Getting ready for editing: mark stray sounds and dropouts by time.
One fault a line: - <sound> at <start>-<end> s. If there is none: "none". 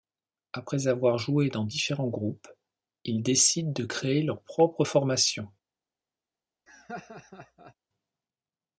- laugh at 6.7-7.7 s